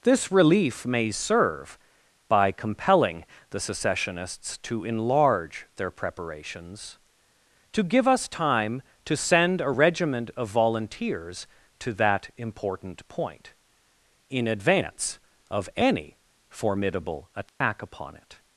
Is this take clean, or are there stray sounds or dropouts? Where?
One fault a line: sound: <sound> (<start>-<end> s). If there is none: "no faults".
sound: dropout (17.5-17.6 s)